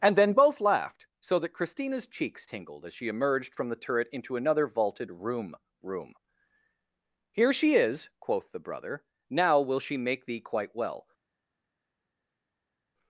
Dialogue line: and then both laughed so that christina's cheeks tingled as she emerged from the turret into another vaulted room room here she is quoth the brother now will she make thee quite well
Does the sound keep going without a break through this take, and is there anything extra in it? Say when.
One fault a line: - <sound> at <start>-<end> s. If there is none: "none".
none